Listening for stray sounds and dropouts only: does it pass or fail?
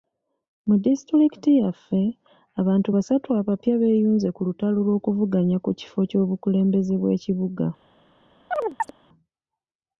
fail